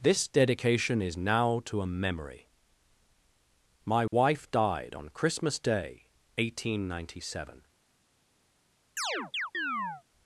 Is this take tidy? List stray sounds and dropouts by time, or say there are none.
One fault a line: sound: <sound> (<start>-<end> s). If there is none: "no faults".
sound: dropout (4.1-4.1 s)
sound: chirp (9.0-10.0 s)